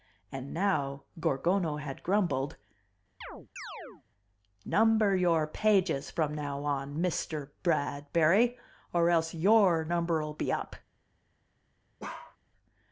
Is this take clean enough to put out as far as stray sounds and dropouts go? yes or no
no